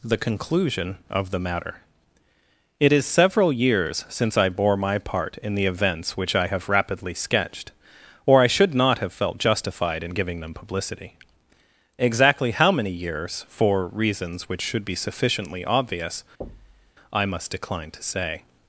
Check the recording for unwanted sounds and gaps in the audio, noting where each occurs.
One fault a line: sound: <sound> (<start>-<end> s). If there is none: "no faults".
sound: thud (16.4-16.9 s)